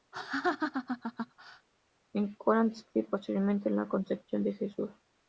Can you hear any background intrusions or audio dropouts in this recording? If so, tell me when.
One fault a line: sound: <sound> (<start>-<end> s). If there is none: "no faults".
sound: laugh (0.1-1.7 s)